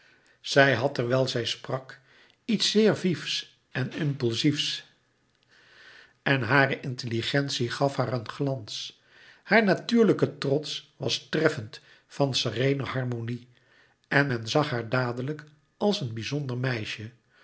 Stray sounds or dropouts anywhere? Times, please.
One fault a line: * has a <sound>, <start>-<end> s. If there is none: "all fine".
all fine